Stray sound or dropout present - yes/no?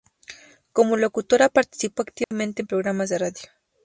yes